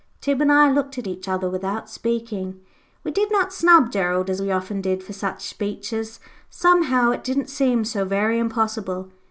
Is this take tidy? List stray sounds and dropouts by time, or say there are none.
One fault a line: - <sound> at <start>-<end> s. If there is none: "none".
none